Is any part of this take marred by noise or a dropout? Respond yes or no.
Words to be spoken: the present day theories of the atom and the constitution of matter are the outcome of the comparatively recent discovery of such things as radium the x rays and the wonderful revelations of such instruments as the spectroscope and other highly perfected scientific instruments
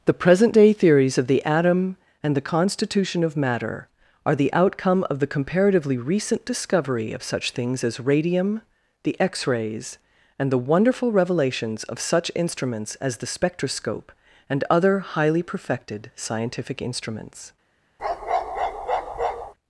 yes